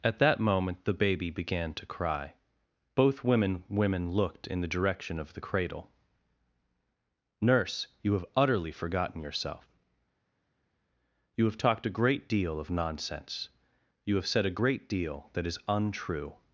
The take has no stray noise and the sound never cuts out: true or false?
true